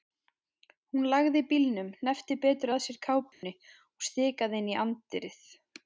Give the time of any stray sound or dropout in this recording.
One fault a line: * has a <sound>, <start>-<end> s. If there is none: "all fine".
* has a dropout, 3.3-3.4 s